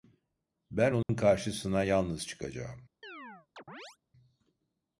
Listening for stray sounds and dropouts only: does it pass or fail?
fail